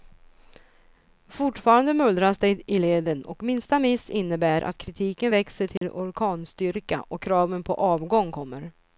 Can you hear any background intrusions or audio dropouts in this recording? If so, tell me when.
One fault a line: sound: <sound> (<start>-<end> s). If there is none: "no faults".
sound: dropout (5.8-5.8 s)